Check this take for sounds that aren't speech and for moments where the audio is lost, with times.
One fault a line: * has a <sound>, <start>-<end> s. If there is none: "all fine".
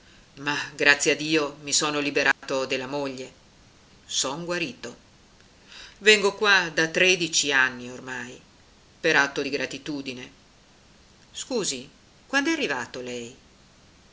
* has a dropout, 2.3-2.4 s